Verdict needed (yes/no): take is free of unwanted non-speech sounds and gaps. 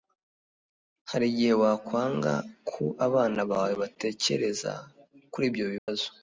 no